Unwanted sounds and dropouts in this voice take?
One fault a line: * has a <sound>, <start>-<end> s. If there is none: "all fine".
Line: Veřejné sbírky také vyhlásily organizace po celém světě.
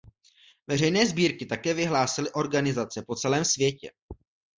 all fine